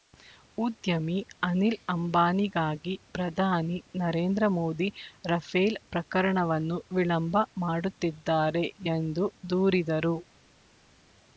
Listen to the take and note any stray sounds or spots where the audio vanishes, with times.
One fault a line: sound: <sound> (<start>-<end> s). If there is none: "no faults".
no faults